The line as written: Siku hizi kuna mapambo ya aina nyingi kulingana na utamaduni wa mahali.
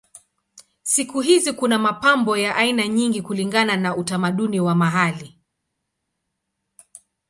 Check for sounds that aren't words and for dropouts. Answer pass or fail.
pass